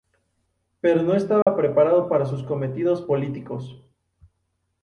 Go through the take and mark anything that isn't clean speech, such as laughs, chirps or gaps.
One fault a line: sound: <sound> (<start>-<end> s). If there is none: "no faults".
sound: dropout (1.4-1.5 s)